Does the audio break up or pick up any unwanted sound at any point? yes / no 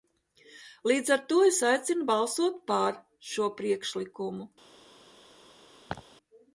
yes